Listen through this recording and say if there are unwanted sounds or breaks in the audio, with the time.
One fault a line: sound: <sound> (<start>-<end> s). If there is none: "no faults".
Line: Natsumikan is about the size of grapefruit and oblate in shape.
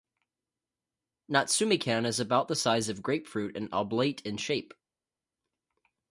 no faults